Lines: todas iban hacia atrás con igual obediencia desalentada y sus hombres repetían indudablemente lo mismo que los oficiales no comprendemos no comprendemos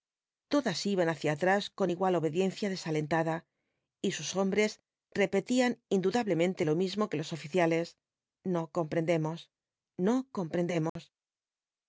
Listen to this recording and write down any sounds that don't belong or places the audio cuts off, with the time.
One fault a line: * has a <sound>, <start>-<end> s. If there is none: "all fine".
* has a dropout, 10.9-11.0 s